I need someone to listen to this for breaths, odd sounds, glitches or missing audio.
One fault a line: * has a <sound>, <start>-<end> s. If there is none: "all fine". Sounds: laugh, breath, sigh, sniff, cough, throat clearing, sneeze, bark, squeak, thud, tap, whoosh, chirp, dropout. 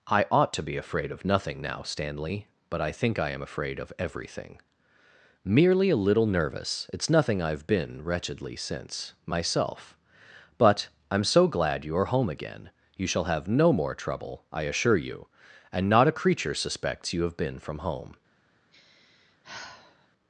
* has a sigh, 18.7-20.1 s